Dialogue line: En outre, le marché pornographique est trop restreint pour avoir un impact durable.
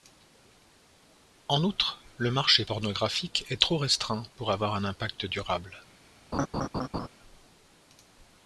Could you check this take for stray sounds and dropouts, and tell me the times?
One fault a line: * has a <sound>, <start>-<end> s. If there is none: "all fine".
* has a laugh, 6.3-7.1 s